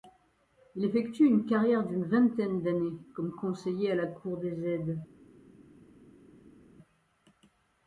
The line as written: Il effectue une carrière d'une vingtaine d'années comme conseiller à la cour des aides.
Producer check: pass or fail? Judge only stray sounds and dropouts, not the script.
pass